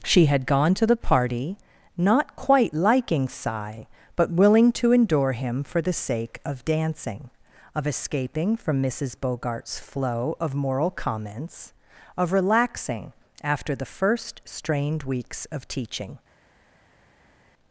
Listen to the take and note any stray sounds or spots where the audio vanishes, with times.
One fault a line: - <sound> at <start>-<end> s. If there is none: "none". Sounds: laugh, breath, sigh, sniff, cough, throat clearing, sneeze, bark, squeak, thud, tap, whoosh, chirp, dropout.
none